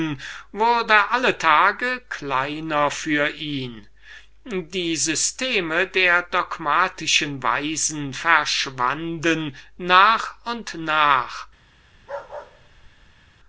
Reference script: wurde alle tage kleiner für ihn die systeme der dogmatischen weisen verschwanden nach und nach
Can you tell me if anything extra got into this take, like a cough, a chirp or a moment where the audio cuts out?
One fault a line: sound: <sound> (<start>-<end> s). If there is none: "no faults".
sound: bark (11.9-13.3 s)